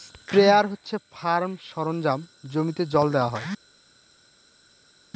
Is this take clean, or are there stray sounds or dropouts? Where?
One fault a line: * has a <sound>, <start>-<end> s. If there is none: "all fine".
all fine